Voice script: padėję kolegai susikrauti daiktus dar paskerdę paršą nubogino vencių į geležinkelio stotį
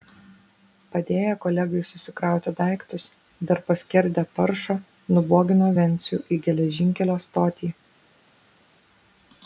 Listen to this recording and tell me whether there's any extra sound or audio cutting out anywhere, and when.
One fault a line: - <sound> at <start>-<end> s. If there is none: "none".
none